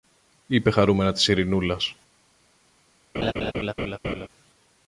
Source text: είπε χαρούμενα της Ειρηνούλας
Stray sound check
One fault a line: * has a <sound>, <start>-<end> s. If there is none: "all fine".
* has a laugh, 3.1-4.3 s